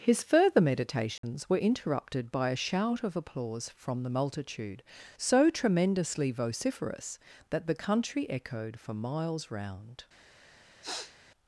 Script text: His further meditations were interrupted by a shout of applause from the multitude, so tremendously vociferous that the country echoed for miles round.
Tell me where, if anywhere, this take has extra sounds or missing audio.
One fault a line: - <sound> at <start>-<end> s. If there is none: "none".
- dropout at 1.2-1.2 s
- sniff at 10.8-11.2 s